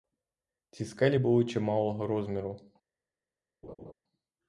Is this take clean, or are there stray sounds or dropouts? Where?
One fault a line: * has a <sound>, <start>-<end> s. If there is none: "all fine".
* has a laugh, 3.6-3.9 s